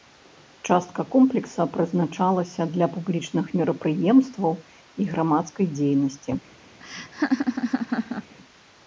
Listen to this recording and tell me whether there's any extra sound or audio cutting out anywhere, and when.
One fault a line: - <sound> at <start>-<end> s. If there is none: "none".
- laugh at 6.8-8.3 s